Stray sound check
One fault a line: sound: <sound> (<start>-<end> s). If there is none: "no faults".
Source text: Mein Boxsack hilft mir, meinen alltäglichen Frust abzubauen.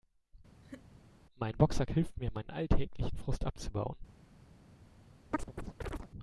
sound: laugh (0.6-0.9 s)
sound: chirp (5.3-6.1 s)